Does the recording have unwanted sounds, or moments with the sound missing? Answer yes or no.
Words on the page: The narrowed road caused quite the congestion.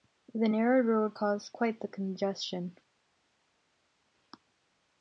no